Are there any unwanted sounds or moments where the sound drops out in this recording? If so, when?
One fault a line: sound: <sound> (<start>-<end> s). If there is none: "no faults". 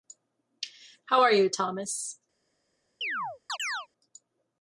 sound: chirp (3.0-3.9 s)